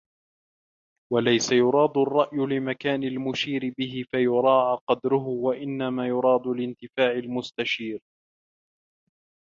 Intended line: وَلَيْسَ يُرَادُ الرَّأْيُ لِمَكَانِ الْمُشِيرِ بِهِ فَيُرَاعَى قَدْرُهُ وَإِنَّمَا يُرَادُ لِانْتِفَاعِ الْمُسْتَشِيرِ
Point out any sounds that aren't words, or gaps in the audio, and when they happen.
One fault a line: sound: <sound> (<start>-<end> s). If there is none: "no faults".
no faults